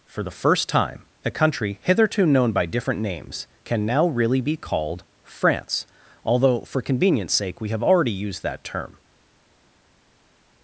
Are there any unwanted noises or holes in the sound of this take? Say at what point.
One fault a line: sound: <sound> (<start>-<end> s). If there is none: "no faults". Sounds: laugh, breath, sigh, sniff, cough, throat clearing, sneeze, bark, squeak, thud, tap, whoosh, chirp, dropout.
no faults